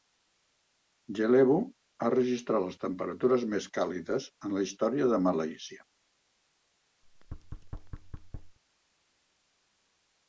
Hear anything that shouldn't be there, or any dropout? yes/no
yes